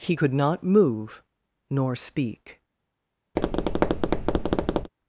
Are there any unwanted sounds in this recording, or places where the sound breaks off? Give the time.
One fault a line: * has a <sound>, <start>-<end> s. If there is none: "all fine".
* has a tap, 3.4-4.9 s